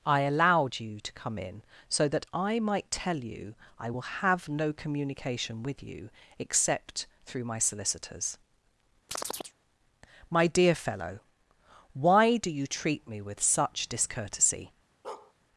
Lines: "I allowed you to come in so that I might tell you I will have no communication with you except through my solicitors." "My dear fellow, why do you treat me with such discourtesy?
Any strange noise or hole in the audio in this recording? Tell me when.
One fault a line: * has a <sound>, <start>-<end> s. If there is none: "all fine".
* has a chirp, 9.1-9.5 s
* has a bark, 15.0-15.3 s